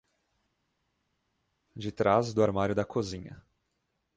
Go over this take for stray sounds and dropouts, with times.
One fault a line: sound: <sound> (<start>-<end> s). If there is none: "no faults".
no faults